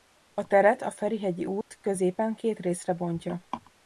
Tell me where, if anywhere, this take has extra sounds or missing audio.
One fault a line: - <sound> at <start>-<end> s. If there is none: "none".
- dropout at 1.6-1.7 s